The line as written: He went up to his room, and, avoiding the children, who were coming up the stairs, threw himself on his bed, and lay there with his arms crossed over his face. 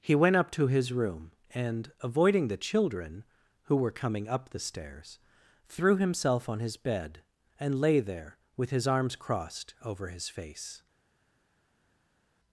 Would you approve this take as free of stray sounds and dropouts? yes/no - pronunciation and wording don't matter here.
yes